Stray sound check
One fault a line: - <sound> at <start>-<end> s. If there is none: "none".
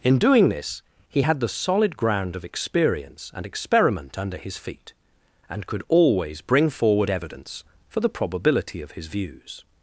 none